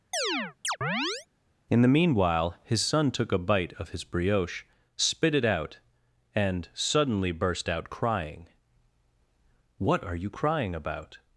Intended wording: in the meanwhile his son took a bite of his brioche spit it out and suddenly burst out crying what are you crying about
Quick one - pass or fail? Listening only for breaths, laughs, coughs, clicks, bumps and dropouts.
fail